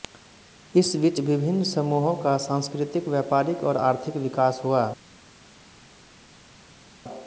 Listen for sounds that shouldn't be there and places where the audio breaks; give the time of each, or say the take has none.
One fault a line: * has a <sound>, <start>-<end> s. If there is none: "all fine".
all fine